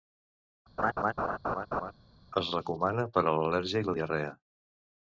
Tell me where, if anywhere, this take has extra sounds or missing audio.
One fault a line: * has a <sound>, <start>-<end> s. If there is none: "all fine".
* has a laugh, 0.8-1.9 s